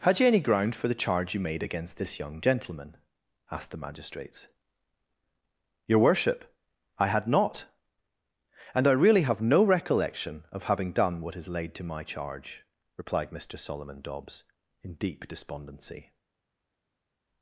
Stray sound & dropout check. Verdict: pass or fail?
pass